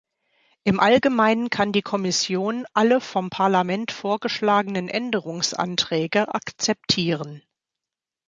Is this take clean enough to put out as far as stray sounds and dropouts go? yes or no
yes